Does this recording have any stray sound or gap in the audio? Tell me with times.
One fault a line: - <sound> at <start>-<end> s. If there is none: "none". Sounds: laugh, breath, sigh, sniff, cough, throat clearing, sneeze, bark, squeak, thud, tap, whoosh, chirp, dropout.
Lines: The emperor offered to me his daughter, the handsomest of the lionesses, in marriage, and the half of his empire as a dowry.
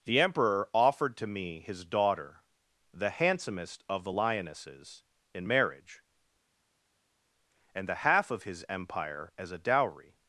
none